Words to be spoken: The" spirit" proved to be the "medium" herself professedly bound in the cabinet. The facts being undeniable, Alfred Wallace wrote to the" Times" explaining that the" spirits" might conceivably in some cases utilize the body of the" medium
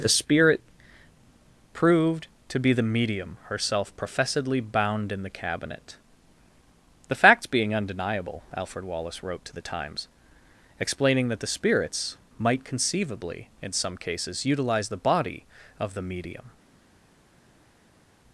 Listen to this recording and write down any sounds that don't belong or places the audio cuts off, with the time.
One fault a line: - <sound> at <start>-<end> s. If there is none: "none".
none